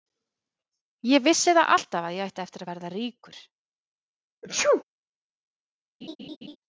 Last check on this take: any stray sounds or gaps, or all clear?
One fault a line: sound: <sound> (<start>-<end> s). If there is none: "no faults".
sound: sneeze (4.4-4.8 s)
sound: laugh (6.0-6.6 s)